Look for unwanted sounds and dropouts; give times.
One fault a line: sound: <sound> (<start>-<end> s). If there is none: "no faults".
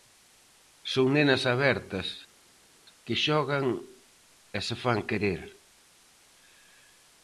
no faults